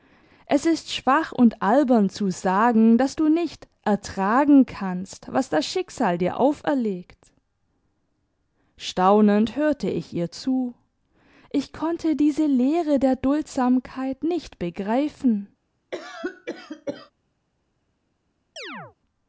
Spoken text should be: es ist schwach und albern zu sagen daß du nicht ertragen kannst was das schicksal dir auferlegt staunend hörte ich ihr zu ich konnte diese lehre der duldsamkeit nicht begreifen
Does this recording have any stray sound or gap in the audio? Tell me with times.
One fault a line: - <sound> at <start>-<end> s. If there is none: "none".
- cough at 15.9-17.1 s
- chirp at 18.6-19.0 s